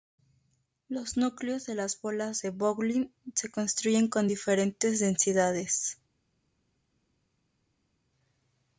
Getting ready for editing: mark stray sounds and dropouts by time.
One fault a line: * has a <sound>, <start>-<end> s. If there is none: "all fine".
all fine